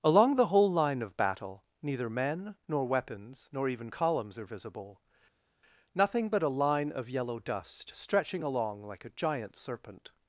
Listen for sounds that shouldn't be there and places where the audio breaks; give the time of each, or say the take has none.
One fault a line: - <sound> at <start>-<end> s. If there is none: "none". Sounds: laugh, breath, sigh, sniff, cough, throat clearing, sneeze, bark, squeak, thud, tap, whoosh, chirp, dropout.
none